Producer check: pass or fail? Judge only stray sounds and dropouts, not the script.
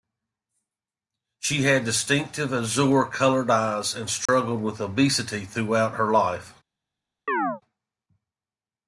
fail